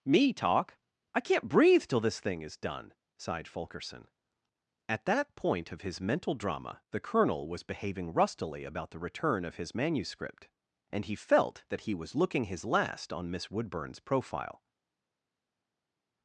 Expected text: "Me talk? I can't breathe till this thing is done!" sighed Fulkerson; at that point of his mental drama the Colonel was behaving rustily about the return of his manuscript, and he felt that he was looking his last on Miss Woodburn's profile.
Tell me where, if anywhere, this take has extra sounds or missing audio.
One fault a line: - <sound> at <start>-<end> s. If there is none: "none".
none